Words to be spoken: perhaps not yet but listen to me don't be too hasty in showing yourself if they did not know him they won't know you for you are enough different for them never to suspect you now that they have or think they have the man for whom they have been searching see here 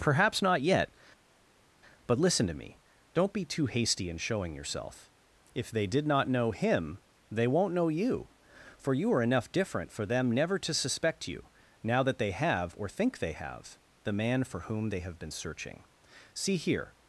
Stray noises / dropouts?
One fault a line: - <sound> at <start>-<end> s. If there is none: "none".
none